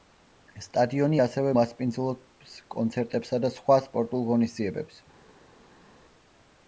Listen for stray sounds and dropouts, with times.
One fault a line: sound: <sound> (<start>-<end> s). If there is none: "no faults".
no faults